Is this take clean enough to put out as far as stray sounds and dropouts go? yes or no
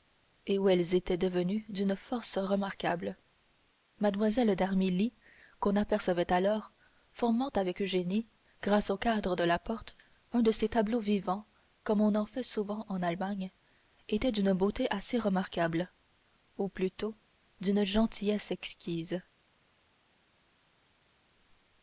yes